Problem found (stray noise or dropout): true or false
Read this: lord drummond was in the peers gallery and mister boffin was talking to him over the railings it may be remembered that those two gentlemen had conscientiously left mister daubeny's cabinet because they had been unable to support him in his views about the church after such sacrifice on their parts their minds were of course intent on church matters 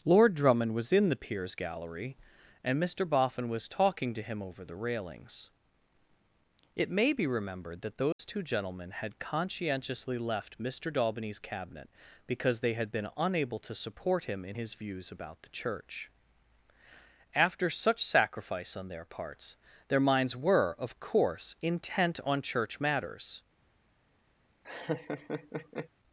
true